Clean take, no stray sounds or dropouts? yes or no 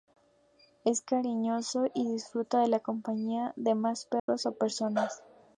no